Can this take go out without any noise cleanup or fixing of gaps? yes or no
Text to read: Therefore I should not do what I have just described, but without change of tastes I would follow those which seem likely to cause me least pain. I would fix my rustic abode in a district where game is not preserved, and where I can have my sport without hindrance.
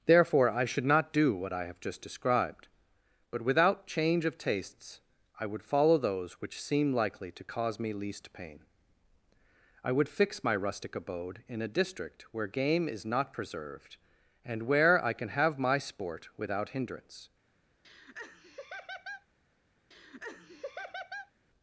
no